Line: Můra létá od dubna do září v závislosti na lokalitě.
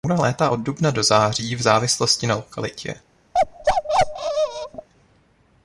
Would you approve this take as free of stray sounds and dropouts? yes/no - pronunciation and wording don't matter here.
no